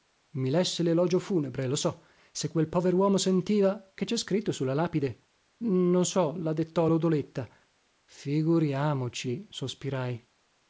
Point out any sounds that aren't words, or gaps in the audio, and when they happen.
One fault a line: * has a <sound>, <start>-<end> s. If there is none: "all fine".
all fine